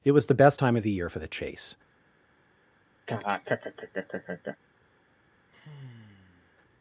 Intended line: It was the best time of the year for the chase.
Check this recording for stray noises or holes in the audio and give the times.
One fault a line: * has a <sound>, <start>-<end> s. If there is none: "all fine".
* has a laugh, 3.1-4.6 s
* has a sigh, 5.5-6.6 s